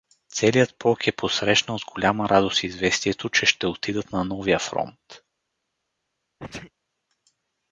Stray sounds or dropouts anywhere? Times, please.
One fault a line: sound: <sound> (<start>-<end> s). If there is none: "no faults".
sound: sneeze (6.4-6.7 s)